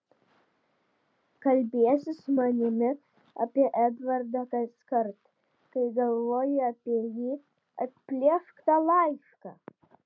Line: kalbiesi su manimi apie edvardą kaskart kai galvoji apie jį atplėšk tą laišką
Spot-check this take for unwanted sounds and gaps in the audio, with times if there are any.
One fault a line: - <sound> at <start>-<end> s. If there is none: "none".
none